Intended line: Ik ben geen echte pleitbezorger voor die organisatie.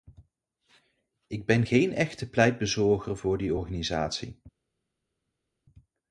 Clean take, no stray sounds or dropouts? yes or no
yes